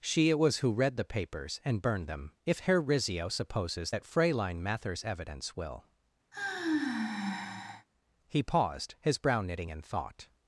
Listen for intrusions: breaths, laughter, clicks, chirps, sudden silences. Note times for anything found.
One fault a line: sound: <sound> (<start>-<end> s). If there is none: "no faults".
sound: sigh (6.3-7.9 s)